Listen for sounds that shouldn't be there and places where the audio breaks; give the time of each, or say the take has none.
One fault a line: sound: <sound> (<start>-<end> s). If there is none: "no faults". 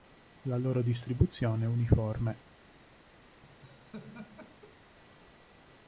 sound: laugh (3.4-4.9 s)